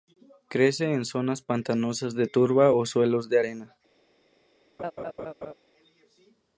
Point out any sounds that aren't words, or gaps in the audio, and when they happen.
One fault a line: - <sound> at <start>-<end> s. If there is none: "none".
- laugh at 4.8-5.5 s